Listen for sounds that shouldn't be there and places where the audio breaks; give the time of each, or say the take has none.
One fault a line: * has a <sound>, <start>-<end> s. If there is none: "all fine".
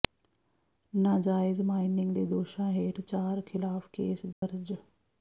* has a dropout, 4.3-4.4 s